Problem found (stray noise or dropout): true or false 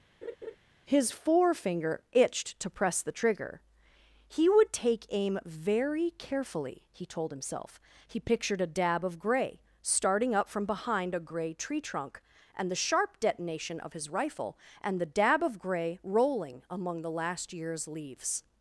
true